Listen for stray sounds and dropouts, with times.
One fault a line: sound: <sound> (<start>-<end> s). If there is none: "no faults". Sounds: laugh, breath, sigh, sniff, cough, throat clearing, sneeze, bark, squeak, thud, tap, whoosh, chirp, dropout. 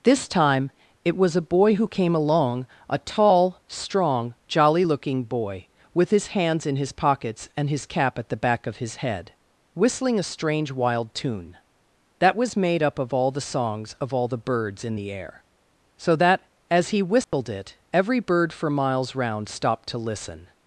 sound: dropout (17.2-17.3 s)